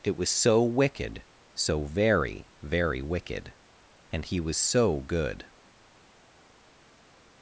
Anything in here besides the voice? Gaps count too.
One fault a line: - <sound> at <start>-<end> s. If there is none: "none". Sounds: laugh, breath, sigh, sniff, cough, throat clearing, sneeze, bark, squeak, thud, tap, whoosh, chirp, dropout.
none